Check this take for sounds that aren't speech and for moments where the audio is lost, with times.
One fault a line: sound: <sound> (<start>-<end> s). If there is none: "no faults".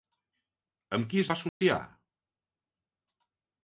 sound: dropout (1.5-1.6 s)